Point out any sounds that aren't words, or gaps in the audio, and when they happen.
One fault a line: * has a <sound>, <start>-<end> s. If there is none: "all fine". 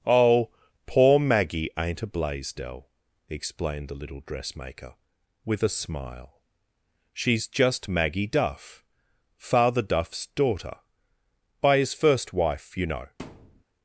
* has a thud, 13.2-13.6 s